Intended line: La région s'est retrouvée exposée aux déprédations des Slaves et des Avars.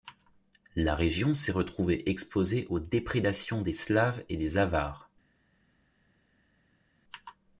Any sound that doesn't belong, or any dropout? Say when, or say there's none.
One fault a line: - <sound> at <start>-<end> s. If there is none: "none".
none